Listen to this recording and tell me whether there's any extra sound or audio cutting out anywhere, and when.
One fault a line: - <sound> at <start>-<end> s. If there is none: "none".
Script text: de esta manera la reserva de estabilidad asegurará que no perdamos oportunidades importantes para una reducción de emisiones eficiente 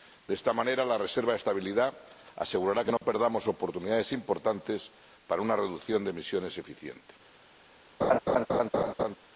- dropout at 3.0-3.0 s
- laugh at 8.0-9.2 s